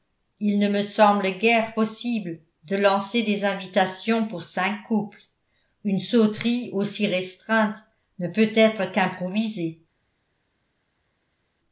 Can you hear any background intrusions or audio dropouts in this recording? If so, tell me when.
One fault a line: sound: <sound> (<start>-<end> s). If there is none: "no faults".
no faults